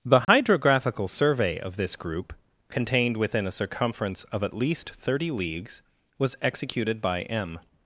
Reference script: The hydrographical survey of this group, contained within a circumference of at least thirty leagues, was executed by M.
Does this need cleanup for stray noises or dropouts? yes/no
yes